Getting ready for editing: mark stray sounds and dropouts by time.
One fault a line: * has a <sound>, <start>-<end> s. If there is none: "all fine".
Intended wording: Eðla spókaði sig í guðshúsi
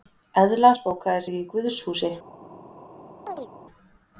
* has a chirp, 3.3-3.5 s